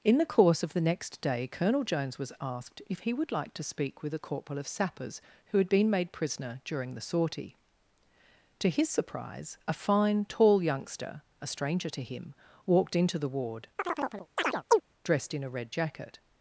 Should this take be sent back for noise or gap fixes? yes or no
yes